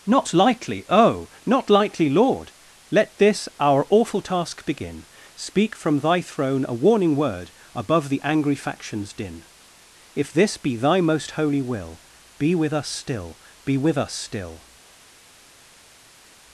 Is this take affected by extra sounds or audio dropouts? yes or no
no